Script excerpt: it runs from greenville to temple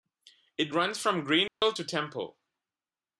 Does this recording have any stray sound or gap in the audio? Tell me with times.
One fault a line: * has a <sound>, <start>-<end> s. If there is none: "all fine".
* has a dropout, 1.5-1.6 s